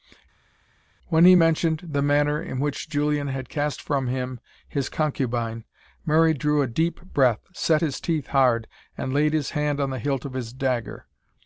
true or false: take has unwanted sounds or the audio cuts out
false